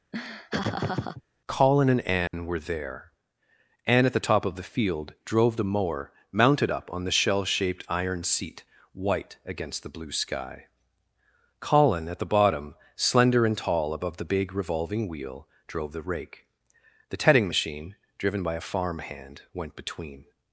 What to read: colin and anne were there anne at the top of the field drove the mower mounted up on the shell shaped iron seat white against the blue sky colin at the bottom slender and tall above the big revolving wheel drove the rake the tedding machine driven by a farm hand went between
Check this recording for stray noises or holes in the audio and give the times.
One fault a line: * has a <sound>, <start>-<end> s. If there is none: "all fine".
* has a laugh, 0.1-1.2 s
* has a dropout, 2.3-2.3 s